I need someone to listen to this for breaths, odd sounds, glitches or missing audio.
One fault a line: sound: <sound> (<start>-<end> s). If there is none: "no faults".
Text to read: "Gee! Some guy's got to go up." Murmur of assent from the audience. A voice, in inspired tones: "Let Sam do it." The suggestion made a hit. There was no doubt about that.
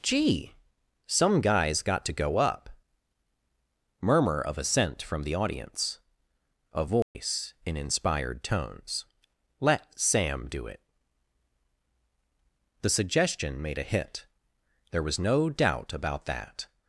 sound: dropout (7.0-7.1 s)